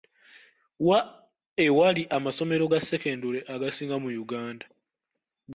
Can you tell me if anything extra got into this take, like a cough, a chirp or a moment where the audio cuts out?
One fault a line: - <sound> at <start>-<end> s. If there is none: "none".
none